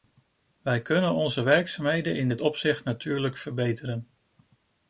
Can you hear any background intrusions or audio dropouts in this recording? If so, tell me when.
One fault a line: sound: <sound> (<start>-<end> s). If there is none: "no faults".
no faults